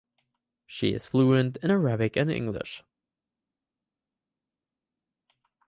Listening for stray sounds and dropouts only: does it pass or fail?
pass